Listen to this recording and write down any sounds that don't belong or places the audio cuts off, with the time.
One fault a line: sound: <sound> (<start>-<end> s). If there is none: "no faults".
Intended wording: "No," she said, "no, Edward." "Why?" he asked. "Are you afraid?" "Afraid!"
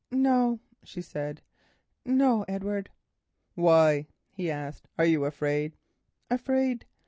no faults